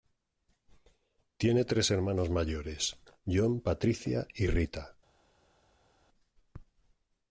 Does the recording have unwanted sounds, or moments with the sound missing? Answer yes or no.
no